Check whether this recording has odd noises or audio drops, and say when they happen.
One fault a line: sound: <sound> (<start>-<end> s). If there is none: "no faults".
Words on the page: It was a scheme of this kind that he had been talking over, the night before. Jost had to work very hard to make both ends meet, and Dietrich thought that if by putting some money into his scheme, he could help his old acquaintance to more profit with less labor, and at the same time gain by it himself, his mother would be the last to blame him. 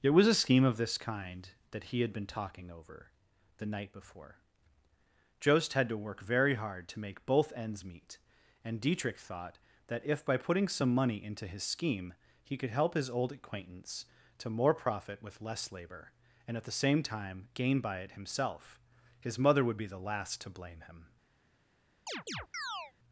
sound: chirp (22.1-22.9 s)